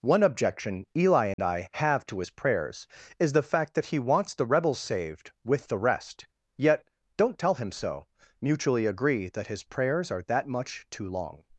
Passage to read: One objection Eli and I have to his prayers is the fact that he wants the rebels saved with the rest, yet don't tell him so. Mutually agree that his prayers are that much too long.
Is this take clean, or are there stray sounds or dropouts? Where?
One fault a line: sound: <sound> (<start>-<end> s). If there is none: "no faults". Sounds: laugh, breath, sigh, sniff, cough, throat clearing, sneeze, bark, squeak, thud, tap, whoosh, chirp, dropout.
sound: dropout (1.3-1.4 s)